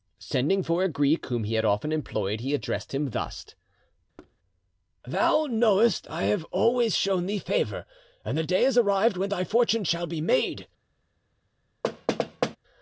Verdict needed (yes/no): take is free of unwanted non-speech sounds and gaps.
no